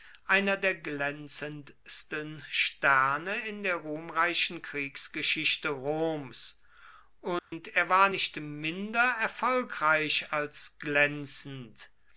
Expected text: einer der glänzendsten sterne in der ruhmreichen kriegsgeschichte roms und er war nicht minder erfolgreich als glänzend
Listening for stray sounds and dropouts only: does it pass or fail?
fail